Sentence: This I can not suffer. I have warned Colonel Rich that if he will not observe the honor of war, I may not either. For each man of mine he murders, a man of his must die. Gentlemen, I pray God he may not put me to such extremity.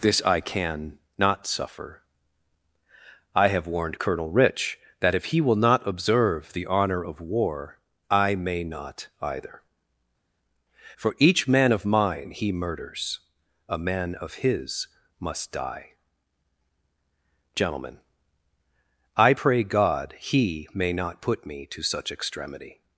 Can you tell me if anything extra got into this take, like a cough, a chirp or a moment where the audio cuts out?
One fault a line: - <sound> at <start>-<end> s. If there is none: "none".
none